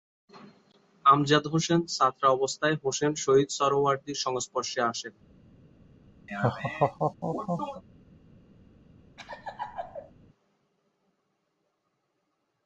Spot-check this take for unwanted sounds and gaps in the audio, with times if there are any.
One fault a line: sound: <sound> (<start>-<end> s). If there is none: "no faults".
sound: laugh (6.3-7.8 s)
sound: laugh (9.2-10.1 s)